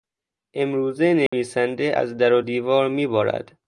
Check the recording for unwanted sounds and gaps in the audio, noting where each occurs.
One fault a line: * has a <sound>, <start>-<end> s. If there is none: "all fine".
* has a dropout, 1.3-1.3 s